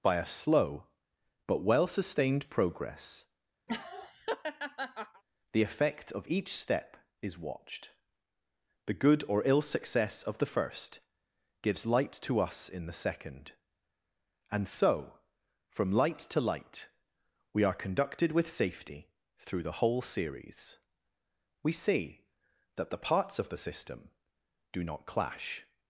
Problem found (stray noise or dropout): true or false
true